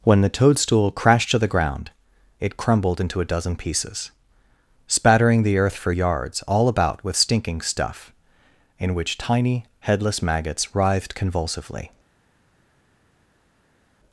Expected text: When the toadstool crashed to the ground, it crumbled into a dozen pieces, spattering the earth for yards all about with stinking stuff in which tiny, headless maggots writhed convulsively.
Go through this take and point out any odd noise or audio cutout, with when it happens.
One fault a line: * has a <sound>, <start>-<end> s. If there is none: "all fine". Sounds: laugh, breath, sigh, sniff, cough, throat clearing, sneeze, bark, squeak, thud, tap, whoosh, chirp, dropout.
all fine